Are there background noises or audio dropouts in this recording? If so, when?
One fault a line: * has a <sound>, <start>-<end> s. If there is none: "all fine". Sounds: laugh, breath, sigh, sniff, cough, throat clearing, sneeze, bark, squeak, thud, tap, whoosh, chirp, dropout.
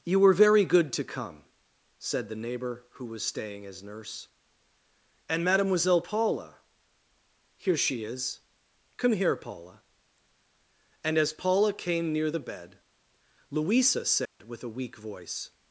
* has a dropout, 14.3-14.4 s